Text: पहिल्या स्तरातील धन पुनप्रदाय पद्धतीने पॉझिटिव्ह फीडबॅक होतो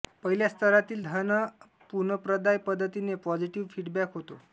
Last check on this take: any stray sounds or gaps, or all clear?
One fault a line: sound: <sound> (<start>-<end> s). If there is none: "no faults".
no faults